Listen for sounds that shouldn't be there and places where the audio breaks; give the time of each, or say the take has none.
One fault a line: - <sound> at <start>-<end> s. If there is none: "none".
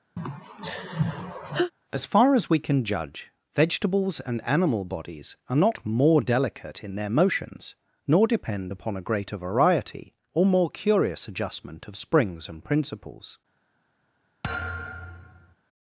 - sigh at 0.2-1.7 s
- thud at 14.4-15.6 s